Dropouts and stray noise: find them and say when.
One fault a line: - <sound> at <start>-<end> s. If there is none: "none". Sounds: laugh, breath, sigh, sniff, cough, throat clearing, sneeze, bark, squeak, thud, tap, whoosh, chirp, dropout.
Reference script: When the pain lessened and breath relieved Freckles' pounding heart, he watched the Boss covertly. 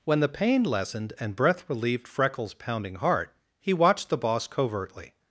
none